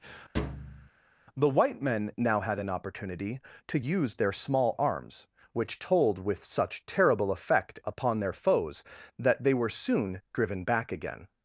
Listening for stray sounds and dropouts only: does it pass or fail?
fail